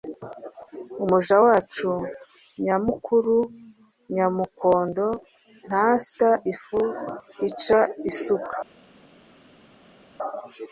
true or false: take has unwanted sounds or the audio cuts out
false